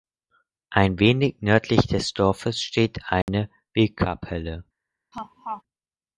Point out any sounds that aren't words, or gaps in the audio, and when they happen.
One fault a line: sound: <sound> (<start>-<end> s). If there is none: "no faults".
sound: dropout (3.2-3.3 s)
sound: laugh (5.1-5.6 s)